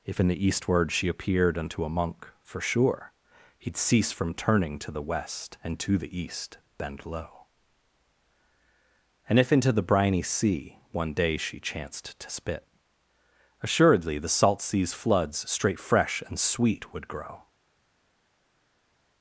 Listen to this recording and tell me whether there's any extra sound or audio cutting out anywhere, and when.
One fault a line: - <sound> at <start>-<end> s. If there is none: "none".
none